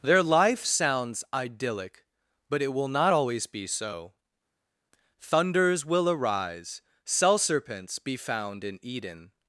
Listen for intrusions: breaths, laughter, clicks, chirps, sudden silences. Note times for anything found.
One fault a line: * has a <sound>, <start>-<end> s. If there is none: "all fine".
all fine